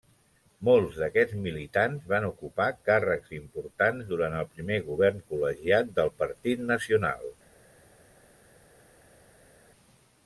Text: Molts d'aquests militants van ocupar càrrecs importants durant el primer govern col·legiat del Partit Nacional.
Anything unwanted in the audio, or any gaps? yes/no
no